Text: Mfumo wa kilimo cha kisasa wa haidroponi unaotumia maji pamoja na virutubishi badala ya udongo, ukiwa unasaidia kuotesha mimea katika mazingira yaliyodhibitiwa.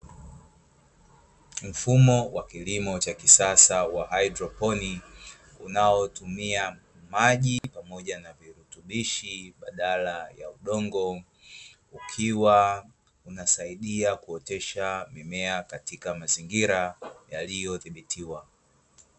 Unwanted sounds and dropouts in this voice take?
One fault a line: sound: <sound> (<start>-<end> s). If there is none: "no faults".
sound: dropout (7.6-7.6 s)